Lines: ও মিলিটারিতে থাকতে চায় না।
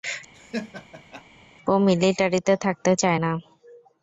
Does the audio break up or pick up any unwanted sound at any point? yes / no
yes